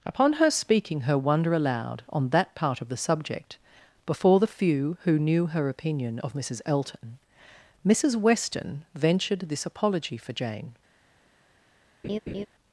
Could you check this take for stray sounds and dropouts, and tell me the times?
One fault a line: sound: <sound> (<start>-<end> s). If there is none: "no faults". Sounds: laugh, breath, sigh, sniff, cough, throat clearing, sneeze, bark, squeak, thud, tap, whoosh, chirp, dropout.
sound: laugh (12.0-12.5 s)